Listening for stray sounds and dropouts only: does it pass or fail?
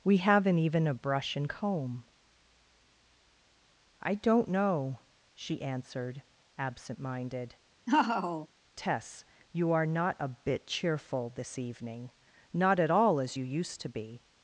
fail